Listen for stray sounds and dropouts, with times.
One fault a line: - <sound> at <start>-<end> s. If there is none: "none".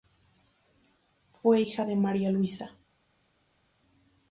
none